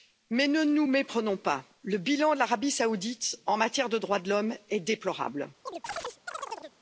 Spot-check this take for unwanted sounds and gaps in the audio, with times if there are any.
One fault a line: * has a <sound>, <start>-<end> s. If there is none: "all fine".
* has a chirp, 5.7-6.8 s